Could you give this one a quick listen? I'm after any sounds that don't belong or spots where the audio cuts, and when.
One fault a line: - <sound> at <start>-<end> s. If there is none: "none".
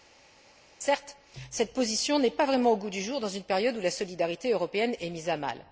none